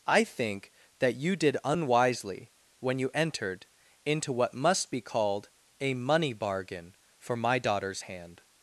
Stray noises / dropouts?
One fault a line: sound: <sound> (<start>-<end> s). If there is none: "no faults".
no faults